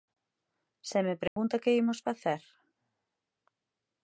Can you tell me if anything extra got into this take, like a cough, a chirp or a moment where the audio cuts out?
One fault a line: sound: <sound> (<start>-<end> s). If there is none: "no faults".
sound: dropout (1.3-1.4 s)